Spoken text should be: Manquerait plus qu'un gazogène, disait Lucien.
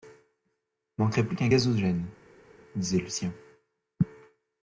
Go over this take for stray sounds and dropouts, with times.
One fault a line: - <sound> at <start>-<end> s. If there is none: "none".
none